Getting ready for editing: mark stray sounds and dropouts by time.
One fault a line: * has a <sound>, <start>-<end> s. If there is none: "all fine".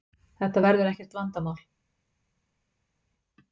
all fine